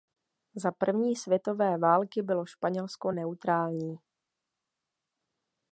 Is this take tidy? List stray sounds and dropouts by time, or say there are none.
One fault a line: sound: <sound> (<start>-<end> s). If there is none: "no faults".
no faults